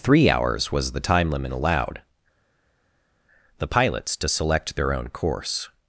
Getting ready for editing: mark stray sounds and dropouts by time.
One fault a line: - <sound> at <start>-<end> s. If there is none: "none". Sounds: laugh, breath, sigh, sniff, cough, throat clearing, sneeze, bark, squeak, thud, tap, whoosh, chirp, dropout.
none